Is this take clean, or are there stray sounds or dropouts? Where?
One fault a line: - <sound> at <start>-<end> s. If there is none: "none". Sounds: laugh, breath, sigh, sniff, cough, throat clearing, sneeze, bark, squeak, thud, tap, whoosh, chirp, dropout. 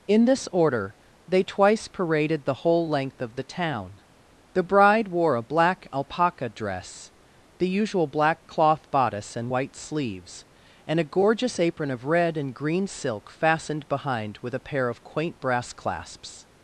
none